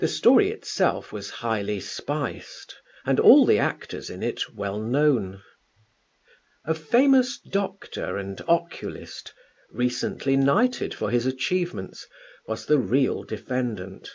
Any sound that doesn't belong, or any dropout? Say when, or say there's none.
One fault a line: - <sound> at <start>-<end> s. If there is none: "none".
none